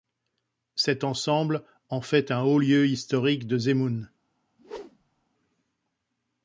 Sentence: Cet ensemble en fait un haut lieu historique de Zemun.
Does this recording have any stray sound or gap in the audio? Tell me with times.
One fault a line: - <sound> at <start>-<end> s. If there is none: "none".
- whoosh at 4.6-5.3 s